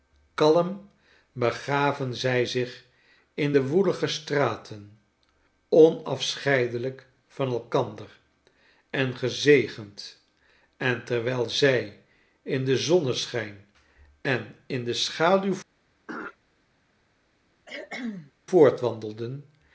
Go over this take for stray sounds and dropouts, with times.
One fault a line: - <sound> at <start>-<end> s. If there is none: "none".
- throat clearing at 16.1-16.4 s
- cough at 17.7-18.3 s